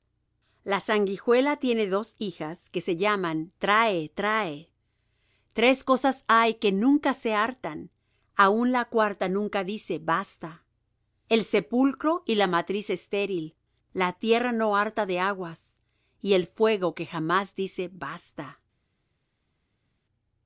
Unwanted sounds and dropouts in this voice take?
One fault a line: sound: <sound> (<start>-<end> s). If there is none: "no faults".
no faults